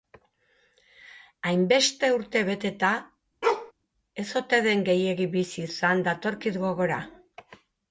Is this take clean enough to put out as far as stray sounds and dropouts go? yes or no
no